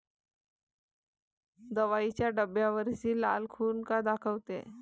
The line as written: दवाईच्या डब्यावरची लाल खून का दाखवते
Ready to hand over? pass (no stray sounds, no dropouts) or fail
pass